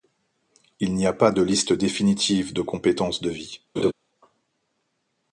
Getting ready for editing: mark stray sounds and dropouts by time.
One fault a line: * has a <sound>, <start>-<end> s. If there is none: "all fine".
* has a laugh, 3.8-3.9 s